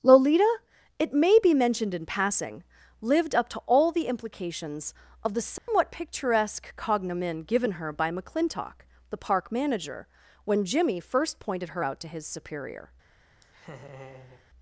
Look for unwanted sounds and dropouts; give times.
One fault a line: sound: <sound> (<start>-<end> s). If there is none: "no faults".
sound: dropout (5.6-5.7 s)
sound: laugh (13.4-14.5 s)